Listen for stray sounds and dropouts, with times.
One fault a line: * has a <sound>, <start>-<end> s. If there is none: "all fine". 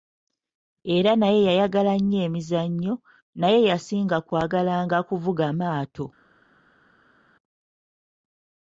all fine